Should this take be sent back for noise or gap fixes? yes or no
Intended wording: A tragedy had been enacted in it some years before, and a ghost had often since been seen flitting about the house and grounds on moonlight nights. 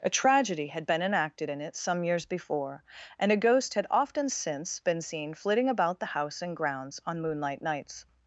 no